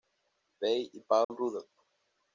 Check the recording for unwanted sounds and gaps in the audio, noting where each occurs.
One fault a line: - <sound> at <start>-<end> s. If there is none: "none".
- dropout at 1.2-1.3 s